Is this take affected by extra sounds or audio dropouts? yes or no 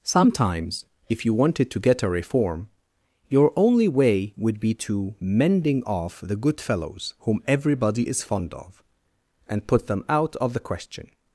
no